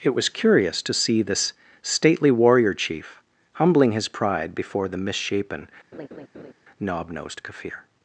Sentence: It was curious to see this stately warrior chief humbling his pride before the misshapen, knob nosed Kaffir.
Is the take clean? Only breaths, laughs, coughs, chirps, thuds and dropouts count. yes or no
no